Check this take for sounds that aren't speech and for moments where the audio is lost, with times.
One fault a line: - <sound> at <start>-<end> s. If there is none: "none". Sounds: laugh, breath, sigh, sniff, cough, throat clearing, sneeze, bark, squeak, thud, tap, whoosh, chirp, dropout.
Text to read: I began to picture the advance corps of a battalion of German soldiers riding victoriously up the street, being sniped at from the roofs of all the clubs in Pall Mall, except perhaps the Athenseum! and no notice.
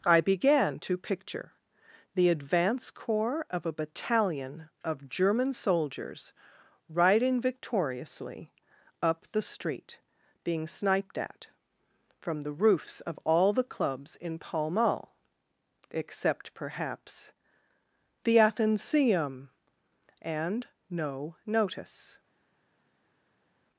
none